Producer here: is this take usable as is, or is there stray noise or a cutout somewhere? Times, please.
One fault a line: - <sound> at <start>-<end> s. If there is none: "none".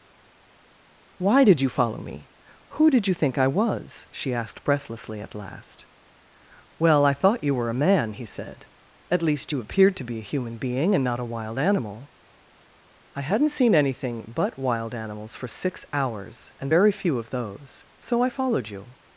none